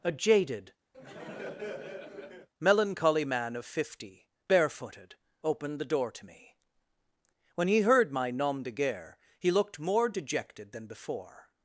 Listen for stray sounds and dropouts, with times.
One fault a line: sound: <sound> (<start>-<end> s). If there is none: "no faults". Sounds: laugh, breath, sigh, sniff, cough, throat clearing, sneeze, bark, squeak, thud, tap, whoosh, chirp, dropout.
sound: laugh (0.9-2.5 s)